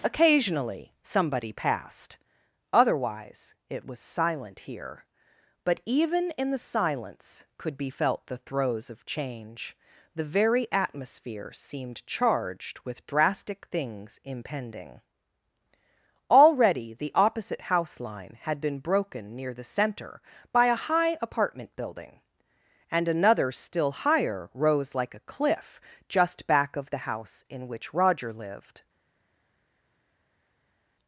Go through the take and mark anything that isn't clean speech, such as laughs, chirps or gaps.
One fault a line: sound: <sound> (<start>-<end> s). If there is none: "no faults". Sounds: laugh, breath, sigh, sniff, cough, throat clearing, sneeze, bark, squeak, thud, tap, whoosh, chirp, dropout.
no faults